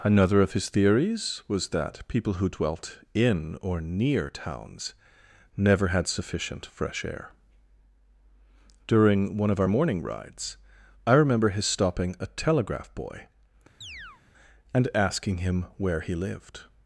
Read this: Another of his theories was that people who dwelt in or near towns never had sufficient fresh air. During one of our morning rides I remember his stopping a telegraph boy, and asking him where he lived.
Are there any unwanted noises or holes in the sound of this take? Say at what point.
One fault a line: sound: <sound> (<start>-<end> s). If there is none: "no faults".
sound: chirp (13.8-14.2 s)